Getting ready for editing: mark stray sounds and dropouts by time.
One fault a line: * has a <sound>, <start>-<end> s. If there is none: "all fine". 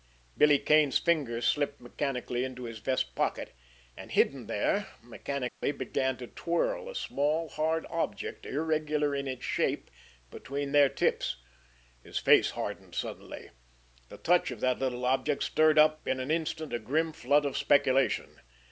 * has a dropout, 5.5-5.6 s